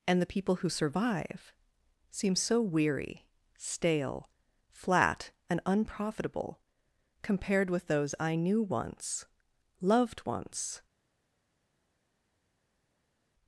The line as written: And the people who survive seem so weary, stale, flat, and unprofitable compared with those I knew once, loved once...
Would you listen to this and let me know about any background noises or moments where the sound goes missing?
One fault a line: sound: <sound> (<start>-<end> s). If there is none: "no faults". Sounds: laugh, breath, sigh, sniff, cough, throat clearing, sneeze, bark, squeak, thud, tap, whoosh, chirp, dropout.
no faults